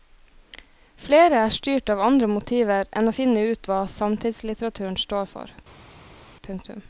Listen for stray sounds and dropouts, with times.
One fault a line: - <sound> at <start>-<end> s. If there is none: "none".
none